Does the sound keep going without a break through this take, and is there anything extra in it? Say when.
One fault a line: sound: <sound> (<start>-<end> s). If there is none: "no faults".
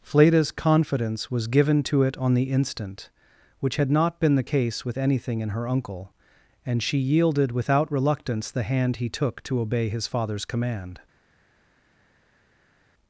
no faults